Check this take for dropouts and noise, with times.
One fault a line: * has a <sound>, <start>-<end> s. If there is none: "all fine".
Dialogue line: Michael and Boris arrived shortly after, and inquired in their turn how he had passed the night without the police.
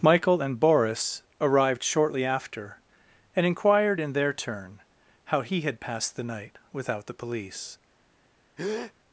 * has a breath, 8.6-8.9 s